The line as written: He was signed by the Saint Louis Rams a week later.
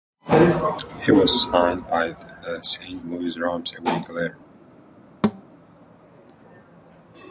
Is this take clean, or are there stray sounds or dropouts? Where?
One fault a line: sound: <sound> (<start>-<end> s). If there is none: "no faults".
sound: thud (5.2-5.4 s)